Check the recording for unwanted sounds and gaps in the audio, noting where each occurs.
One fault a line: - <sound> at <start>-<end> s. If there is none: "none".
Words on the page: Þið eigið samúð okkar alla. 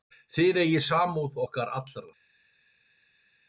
none